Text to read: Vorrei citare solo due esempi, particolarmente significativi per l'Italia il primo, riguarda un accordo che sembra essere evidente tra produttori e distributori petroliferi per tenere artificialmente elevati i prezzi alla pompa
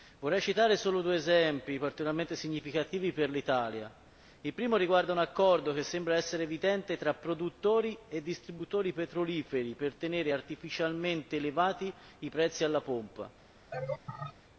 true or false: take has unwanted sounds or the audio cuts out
true